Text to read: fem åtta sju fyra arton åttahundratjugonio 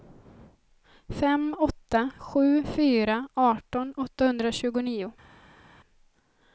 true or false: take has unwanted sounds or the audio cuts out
false